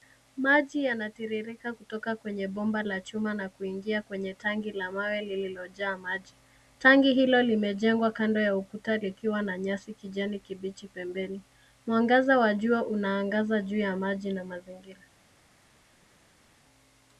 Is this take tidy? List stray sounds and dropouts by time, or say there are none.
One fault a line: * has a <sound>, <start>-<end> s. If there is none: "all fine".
all fine